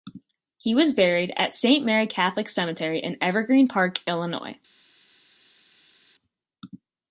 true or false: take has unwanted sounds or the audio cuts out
false